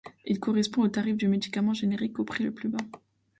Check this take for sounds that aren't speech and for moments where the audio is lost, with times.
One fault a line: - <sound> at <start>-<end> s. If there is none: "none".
none